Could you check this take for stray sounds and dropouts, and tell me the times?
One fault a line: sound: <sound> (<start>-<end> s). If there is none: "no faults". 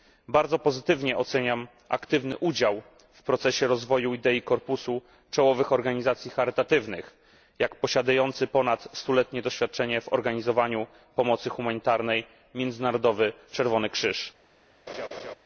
sound: laugh (14.9-15.3 s)